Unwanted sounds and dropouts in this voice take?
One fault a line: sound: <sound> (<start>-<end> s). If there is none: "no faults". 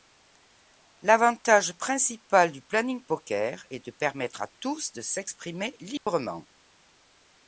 sound: dropout (6.0-6.1 s)